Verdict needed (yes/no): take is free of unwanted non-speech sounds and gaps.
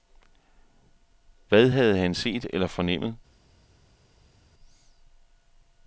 yes